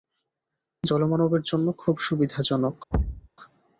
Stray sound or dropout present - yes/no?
yes